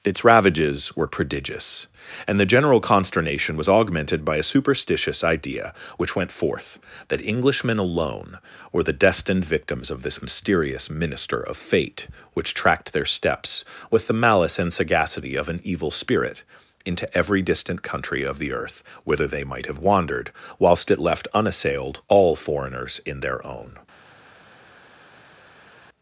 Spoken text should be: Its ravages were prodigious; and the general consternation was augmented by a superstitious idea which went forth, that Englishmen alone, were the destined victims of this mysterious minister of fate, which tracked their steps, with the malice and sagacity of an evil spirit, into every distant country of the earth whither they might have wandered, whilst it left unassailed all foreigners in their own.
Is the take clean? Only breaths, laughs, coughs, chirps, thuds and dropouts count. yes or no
yes